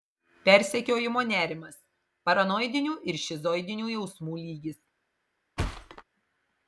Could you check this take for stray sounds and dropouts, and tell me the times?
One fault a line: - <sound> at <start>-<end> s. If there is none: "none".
- thud at 5.6-6.0 s